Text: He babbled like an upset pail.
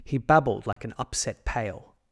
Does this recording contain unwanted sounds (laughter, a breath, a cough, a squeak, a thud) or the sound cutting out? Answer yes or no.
yes